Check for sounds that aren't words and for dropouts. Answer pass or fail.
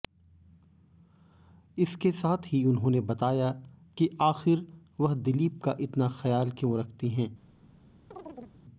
fail